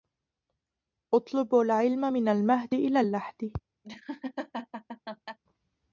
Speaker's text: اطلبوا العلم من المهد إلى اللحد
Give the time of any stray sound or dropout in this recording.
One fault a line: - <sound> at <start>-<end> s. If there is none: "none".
- laugh at 3.8-5.4 s